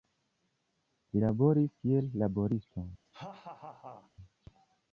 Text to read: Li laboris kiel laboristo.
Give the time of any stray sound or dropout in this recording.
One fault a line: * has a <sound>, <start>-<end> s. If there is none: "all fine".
* has a laugh, 3.1-4.1 s